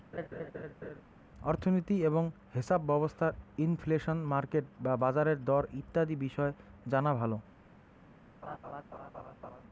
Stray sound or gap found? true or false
true